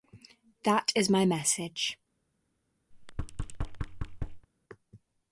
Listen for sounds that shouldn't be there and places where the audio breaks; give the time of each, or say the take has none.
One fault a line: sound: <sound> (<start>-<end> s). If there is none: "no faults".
sound: thud (2.9-4.5 s)